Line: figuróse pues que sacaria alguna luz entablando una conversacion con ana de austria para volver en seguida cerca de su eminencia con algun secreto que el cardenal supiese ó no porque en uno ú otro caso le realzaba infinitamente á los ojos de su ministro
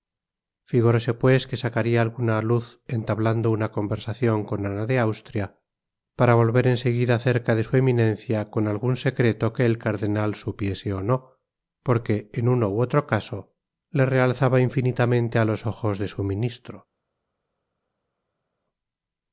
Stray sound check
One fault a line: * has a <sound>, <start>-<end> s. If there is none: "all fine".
all fine